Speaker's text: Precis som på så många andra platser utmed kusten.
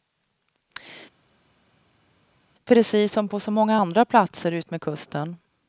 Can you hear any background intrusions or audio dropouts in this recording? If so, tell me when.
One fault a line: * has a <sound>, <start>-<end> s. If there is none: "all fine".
all fine